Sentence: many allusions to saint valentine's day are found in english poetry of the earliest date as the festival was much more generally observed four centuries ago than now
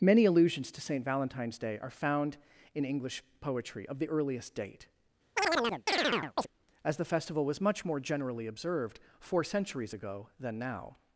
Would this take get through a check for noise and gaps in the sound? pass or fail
fail